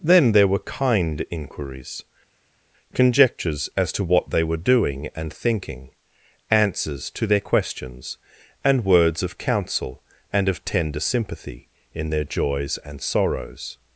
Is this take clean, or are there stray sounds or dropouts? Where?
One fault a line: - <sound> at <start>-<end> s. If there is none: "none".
none